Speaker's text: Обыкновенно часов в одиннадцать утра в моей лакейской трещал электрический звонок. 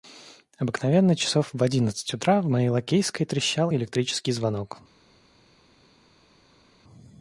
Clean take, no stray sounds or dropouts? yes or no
yes